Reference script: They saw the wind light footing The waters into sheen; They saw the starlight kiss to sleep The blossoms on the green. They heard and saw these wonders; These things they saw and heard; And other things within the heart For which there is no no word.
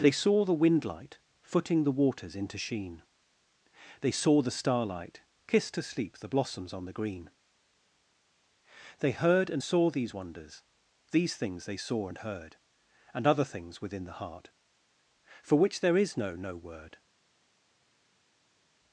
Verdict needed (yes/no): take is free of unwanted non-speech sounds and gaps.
yes